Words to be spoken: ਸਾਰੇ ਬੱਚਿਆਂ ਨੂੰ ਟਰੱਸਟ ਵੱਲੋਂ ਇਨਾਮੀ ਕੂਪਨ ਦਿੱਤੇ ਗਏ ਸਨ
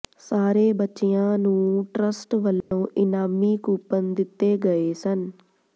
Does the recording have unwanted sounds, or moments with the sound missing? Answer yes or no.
yes